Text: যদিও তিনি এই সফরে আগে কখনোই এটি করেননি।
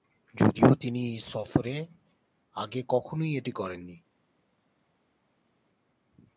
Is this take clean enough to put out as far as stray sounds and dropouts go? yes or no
yes